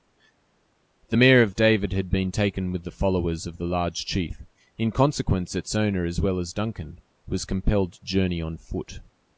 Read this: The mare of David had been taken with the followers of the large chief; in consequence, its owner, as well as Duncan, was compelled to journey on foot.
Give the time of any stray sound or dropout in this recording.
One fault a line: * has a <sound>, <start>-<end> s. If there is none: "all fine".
all fine